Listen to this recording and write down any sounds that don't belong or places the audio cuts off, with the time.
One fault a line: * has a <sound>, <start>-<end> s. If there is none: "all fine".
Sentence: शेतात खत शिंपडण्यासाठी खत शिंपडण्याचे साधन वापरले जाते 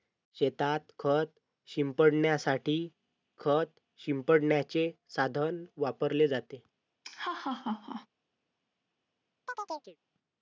* has a laugh, 7.0-8.1 s
* has a chirp, 9.5-10.0 s